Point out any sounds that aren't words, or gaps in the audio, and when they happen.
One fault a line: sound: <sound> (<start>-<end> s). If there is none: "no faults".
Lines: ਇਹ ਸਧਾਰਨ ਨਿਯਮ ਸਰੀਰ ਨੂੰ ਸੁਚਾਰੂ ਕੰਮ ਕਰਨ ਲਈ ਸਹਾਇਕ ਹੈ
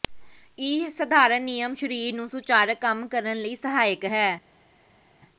no faults